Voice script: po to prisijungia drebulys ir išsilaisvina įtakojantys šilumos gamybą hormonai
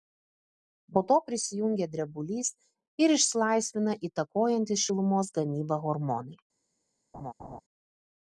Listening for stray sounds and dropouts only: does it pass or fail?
fail